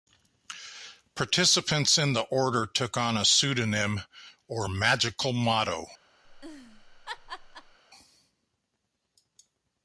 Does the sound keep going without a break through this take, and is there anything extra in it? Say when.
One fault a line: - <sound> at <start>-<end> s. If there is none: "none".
- laugh at 6.2-7.8 s